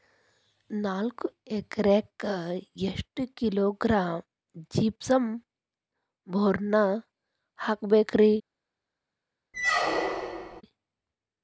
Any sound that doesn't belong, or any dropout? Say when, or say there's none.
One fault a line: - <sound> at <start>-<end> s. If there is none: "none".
- squeak at 9.5-10.6 s